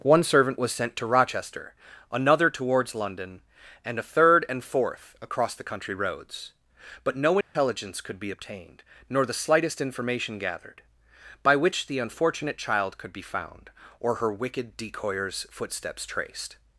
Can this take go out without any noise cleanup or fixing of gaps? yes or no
no